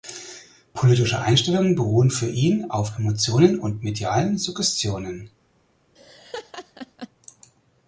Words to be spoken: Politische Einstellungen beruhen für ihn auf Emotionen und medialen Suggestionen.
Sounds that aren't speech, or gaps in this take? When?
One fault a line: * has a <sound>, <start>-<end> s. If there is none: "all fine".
* has a laugh, 6.0-7.1 s